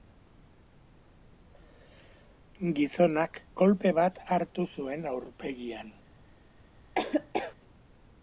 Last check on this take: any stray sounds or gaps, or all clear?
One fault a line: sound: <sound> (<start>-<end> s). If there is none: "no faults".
sound: laugh (7.0-7.6 s)